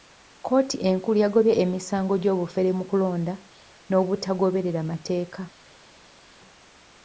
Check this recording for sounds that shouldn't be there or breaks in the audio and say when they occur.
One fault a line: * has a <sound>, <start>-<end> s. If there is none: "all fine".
all fine